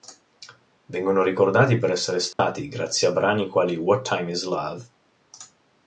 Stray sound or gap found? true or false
true